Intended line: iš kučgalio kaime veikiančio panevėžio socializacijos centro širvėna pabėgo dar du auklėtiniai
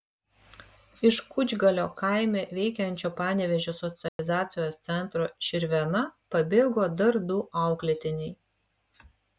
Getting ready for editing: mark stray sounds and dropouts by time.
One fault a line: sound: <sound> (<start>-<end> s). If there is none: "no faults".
sound: dropout (4.1-4.2 s)